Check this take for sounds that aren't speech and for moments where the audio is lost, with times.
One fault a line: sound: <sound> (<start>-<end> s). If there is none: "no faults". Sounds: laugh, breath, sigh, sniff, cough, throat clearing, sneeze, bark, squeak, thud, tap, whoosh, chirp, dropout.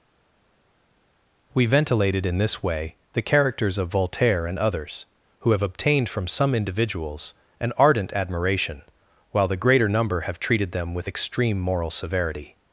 no faults